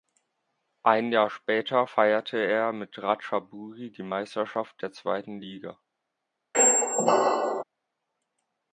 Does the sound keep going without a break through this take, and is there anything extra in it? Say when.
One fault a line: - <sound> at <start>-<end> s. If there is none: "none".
- squeak at 6.5-7.6 s